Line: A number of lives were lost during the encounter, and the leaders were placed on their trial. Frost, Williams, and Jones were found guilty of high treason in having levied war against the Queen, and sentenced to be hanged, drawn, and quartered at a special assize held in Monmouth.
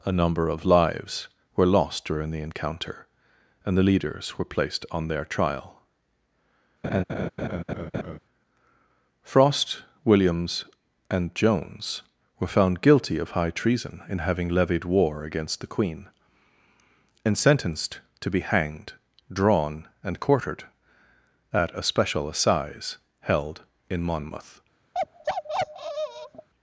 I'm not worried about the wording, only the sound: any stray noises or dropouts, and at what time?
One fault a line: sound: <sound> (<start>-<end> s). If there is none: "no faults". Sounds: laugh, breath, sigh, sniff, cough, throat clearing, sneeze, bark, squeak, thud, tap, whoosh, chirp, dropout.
sound: laugh (6.8-8.2 s)
sound: bark (24.9-26.5 s)